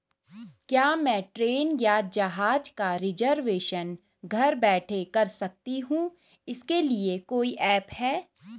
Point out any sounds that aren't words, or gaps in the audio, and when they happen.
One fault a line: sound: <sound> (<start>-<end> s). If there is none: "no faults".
no faults